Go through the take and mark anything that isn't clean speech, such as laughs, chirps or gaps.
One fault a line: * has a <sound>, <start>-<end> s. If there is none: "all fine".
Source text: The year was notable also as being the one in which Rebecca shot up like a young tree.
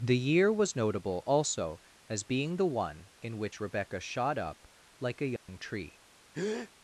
* has a dropout, 5.4-5.5 s
* has a breath, 6.3-6.7 s